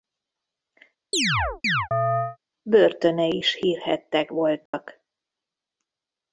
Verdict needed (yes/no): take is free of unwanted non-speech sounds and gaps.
no